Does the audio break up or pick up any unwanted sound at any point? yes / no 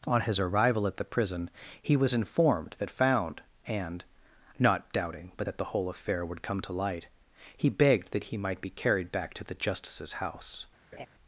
yes